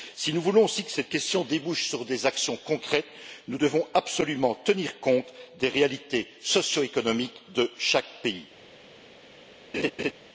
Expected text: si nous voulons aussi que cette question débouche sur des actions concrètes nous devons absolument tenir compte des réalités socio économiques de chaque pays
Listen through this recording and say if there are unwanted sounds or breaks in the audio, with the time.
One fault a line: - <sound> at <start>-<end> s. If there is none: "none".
- laugh at 9.7-10.1 s